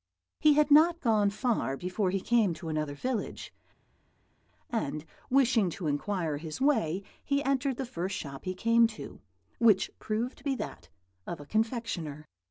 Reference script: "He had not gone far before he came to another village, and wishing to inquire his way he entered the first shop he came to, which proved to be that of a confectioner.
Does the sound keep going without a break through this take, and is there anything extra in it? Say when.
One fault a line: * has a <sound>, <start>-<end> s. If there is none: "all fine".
all fine